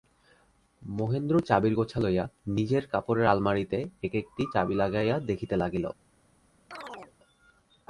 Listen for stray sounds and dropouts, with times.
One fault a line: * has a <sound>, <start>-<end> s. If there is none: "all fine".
* has a chirp, 6.7-7.1 s